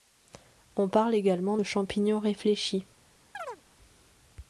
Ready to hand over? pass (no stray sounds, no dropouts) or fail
fail